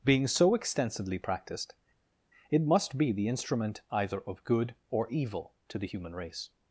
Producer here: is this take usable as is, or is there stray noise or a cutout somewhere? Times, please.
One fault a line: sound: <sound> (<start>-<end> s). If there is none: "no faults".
no faults